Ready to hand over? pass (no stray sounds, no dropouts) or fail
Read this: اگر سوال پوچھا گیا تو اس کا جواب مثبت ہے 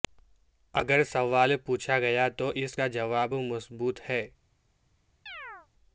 fail